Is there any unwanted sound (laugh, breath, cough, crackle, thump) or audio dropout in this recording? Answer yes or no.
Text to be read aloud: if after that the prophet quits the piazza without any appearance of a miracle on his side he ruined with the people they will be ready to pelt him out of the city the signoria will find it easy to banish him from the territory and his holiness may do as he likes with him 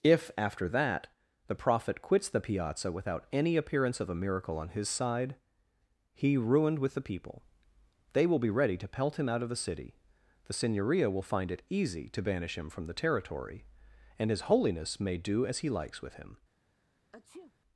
yes